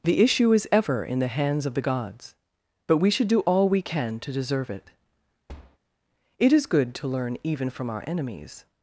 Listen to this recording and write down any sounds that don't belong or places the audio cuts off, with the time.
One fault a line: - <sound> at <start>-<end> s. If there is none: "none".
- thud at 5.5-5.8 s